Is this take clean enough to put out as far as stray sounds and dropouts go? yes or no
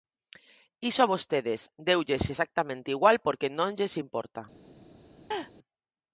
no